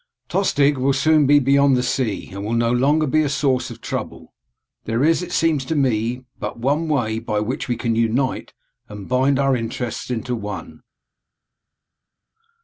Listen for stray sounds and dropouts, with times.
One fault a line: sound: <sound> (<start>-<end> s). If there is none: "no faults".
no faults